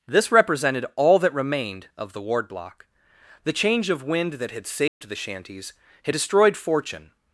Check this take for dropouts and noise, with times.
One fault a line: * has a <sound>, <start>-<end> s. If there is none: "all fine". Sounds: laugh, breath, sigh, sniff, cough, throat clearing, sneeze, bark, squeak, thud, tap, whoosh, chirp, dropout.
* has a dropout, 4.9-5.0 s